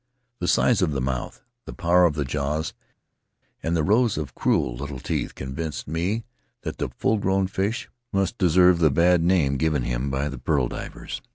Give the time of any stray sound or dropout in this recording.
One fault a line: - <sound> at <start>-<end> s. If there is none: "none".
none